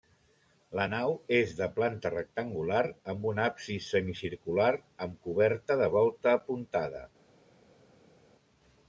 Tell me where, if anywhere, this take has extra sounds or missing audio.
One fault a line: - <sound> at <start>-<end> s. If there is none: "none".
none